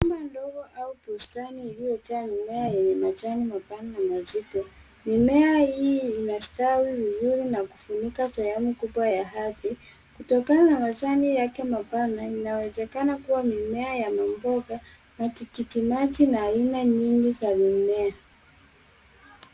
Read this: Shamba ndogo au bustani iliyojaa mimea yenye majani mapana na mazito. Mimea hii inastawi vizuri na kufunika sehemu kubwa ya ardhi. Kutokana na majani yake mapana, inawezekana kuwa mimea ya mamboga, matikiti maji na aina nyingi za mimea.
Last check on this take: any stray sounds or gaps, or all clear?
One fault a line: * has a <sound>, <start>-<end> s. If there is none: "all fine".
all fine